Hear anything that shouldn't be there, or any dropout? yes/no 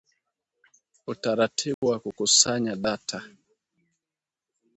yes